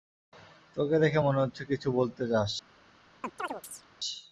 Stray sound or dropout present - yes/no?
yes